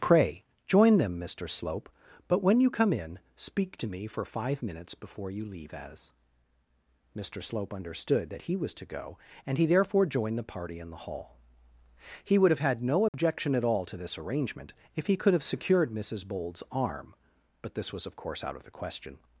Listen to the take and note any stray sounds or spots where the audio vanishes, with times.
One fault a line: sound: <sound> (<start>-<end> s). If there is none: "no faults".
sound: dropout (13.1-13.1 s)